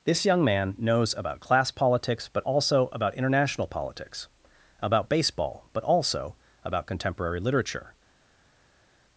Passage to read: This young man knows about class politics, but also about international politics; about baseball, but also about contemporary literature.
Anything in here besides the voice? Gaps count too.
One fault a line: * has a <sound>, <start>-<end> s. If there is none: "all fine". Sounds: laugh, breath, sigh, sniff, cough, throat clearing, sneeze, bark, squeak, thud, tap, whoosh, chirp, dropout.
all fine